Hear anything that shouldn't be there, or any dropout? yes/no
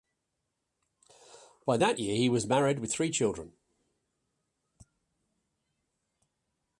no